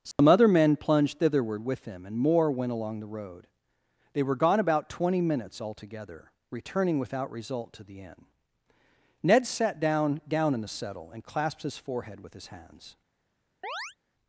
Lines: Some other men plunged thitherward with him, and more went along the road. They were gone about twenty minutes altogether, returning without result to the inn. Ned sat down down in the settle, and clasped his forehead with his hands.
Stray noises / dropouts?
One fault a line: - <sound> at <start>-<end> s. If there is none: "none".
- dropout at 0.1-0.2 s
- chirp at 13.6-14.0 s